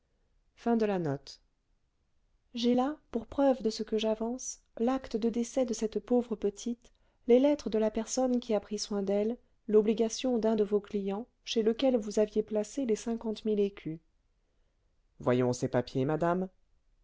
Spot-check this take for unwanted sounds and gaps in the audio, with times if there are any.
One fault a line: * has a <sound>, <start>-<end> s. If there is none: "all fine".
all fine